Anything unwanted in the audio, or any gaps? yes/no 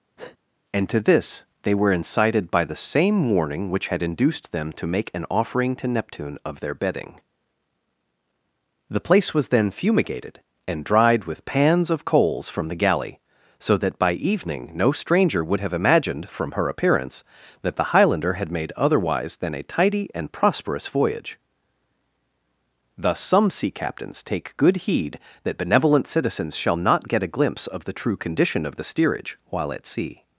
yes